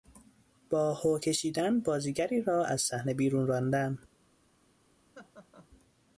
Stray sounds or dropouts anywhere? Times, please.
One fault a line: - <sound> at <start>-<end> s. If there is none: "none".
- laugh at 5.1-5.7 s